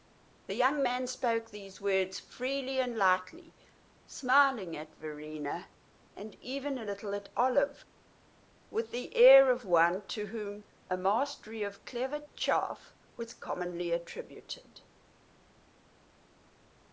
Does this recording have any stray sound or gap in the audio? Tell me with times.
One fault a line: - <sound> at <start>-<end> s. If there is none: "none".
none